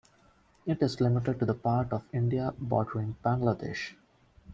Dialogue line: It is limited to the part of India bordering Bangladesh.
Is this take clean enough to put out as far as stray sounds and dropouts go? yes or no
yes